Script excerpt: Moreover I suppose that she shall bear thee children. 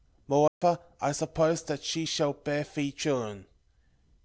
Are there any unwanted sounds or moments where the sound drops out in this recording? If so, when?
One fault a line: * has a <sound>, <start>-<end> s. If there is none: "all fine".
* has a dropout, 0.5-0.6 s